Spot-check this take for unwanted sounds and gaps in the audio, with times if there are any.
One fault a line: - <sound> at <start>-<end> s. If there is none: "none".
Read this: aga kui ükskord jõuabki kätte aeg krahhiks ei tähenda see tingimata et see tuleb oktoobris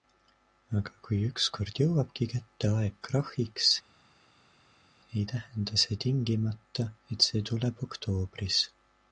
none